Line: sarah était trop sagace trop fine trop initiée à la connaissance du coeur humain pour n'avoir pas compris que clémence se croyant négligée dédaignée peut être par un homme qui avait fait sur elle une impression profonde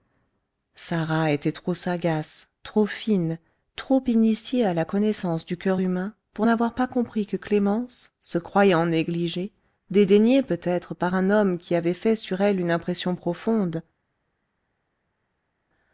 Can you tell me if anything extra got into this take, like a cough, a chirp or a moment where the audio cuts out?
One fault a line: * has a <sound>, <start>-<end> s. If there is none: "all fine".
all fine